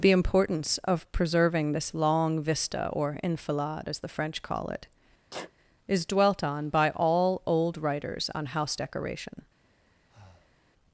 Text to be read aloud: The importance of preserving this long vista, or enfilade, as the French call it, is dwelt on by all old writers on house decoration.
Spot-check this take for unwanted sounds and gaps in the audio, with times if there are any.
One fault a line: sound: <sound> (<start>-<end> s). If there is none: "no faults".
sound: sneeze (5.3-5.5 s)
sound: breath (10.1-10.6 s)